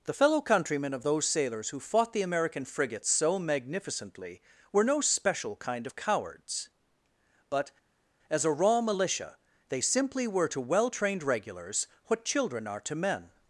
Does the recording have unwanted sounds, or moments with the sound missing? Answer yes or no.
no